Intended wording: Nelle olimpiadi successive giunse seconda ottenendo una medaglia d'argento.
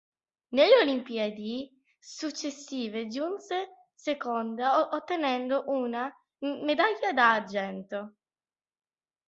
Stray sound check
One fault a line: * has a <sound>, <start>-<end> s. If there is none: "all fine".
all fine